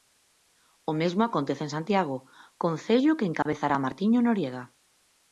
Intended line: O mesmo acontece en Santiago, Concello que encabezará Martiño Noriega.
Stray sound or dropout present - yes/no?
yes